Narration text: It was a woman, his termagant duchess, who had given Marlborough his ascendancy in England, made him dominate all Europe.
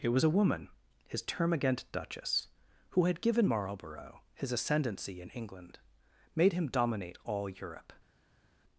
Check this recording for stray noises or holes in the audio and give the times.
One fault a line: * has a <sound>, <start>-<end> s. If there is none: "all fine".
all fine